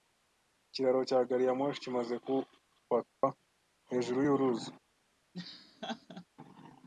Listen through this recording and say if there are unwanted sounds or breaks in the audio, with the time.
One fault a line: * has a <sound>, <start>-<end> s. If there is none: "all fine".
* has a dropout, 3.1-3.2 s
* has a laugh, 5.3-6.2 s